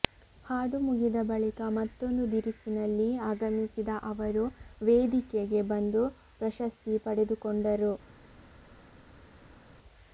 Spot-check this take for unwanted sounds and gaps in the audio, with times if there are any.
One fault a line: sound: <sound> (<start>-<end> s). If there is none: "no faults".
no faults